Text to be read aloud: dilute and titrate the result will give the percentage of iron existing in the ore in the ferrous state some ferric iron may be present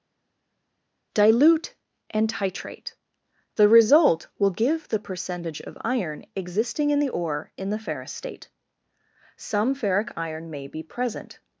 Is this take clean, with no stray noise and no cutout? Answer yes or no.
yes